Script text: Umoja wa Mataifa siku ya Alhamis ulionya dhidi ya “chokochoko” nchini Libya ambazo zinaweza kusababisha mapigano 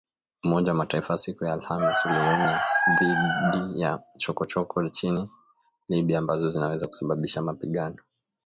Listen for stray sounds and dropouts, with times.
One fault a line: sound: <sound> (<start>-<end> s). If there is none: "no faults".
no faults